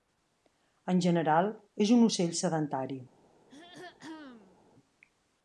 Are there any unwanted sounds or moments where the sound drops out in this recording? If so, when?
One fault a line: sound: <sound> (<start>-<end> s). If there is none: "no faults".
sound: throat clearing (3.5-4.6 s)